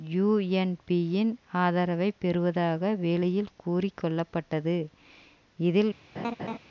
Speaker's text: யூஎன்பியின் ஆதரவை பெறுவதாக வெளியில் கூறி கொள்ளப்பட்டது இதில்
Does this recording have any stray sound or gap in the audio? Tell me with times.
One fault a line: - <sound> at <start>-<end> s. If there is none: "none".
- laugh at 6.2-6.6 s